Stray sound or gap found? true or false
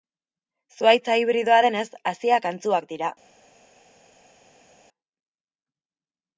false